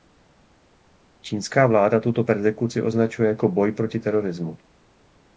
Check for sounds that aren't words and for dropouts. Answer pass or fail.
pass